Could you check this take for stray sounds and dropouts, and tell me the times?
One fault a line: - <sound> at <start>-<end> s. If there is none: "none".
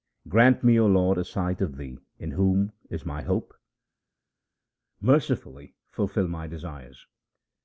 none